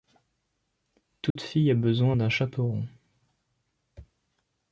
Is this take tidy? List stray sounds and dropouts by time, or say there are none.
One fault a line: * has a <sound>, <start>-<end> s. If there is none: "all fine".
* has a dropout, 1.3-1.4 s